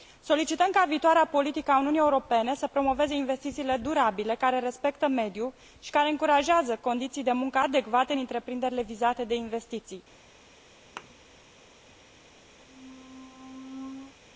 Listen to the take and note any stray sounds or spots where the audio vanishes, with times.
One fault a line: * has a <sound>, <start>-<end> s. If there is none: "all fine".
* has a thud, 11.0-11.2 s
* has a squeak, 12.6-14.1 s